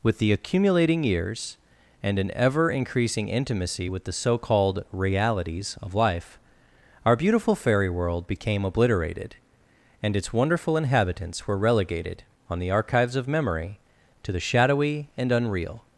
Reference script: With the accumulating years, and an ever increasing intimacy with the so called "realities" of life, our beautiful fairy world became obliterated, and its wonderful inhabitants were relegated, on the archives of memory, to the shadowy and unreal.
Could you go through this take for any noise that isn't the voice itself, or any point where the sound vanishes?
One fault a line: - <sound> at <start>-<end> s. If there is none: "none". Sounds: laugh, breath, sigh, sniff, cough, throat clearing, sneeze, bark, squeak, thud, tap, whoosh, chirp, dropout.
none